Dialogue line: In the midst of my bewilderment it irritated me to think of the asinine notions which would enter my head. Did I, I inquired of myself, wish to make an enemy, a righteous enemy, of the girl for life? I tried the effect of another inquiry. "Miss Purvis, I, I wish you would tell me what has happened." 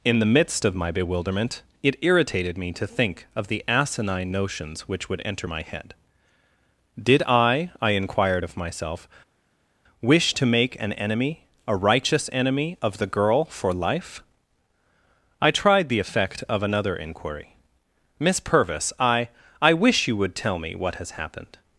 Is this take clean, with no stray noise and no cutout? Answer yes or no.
yes